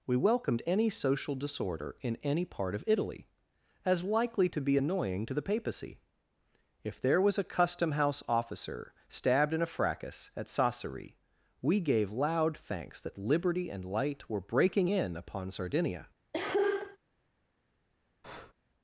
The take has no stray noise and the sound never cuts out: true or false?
false